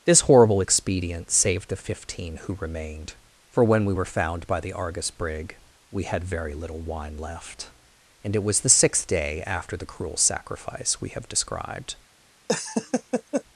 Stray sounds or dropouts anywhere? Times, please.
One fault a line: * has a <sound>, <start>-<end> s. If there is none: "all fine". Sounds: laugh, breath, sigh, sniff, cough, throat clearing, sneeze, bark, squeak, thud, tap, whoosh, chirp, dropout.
* has a laugh, 12.5-13.4 s